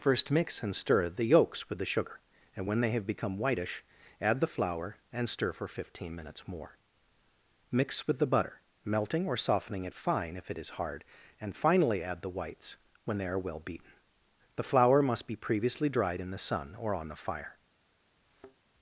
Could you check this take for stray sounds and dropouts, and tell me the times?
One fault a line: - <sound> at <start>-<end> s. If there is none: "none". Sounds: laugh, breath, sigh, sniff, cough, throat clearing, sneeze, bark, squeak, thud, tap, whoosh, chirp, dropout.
- thud at 18.2-18.6 s